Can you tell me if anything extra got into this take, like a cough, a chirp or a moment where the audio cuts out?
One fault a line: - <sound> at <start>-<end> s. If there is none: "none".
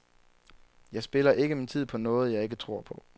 none